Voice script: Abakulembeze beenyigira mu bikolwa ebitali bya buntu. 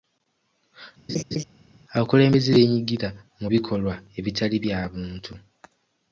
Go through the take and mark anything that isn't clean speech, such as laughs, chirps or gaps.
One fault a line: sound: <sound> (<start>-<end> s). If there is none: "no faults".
sound: laugh (1.1-1.4 s)